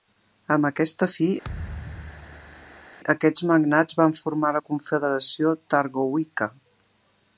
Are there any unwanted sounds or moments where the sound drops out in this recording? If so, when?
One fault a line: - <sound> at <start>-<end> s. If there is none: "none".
- thud at 1.4-2.9 s